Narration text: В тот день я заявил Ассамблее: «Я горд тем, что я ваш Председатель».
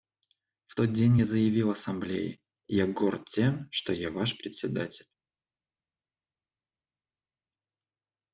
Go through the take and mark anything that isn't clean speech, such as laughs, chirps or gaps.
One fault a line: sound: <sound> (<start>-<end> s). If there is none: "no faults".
no faults